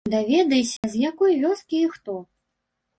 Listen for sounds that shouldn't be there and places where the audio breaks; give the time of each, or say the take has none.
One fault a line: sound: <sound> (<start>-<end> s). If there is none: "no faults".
sound: dropout (0.8-0.8 s)